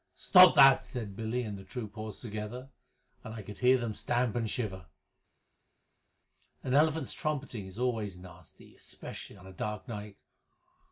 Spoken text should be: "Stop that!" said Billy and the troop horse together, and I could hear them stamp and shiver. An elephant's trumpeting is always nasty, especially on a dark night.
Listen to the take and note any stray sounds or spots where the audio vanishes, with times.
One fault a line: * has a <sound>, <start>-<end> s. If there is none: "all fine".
all fine